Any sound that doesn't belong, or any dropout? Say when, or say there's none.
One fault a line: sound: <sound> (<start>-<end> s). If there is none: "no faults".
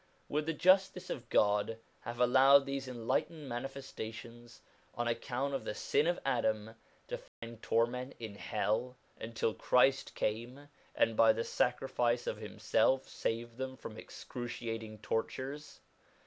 sound: dropout (7.3-7.4 s)